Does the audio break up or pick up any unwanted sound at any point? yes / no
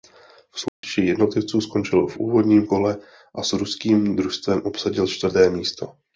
yes